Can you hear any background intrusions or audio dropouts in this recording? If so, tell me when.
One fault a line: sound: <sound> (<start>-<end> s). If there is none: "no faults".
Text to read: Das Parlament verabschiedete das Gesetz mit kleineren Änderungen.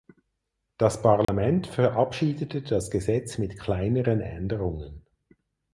sound: dropout (1.2-1.3 s)